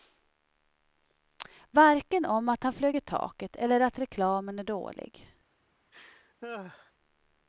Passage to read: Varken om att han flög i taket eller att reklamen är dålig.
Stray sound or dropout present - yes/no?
yes